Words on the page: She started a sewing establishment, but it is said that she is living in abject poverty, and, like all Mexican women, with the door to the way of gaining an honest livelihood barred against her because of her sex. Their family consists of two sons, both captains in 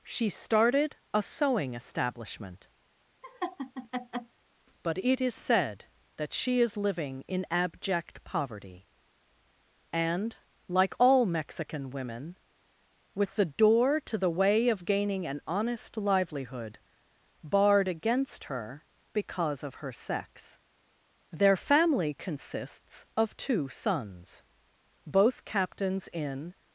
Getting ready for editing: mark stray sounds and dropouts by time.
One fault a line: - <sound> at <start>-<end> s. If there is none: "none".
- laugh at 3.2-4.4 s